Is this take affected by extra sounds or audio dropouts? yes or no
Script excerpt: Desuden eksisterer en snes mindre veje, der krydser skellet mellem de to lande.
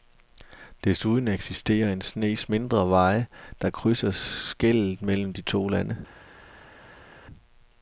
no